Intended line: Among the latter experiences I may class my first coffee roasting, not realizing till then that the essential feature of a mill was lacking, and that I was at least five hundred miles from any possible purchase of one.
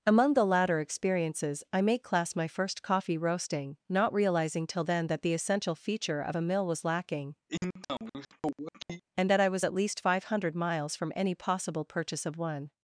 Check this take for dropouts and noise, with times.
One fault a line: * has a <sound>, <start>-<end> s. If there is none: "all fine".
* has a sniff, 7.5-9.0 s